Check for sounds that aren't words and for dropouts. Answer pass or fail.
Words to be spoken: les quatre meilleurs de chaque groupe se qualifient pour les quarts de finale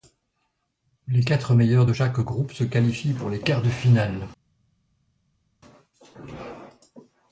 pass